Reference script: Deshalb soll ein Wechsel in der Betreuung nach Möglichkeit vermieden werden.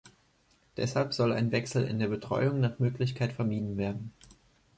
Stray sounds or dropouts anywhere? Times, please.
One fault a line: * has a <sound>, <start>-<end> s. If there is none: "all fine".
all fine